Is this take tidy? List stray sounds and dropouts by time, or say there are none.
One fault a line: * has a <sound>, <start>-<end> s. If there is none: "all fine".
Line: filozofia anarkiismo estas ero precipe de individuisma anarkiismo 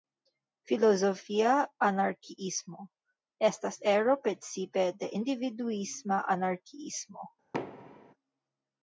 * has a thud, 7.5-8.1 s